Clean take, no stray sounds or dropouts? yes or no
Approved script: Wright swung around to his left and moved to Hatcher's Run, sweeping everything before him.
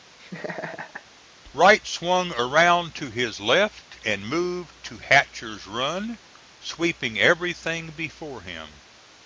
no